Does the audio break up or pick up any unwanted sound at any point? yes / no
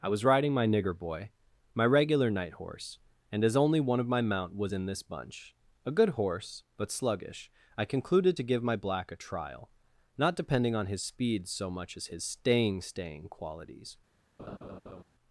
yes